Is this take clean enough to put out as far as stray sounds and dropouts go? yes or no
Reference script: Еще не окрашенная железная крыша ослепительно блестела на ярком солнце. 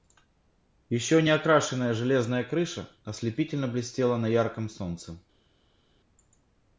yes